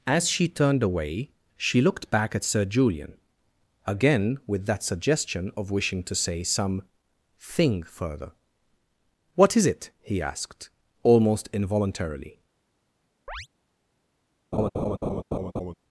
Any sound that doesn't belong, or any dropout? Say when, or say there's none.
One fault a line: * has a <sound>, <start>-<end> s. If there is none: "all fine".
* has a chirp, 13.3-13.5 s
* has a laugh, 14.5-15.7 s